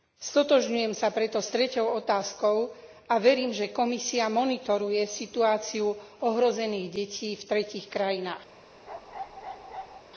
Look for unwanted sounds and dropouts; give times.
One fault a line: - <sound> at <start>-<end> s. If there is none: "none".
- bark at 8.9-10.0 s